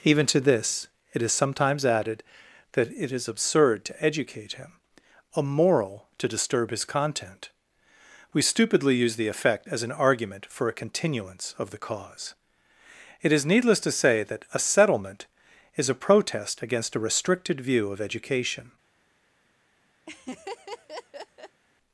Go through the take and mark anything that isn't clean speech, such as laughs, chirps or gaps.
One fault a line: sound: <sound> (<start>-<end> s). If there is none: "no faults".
sound: laugh (20.1-21.6 s)